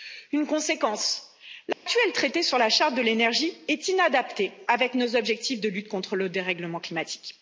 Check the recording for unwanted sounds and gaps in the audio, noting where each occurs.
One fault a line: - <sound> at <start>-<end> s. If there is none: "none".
- dropout at 1.7-1.9 s